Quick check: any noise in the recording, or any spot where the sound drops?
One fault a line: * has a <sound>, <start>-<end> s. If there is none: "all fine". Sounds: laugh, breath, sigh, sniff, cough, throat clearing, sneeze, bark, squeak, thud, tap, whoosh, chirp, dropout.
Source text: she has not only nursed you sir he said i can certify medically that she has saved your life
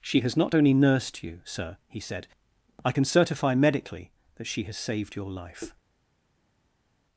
all fine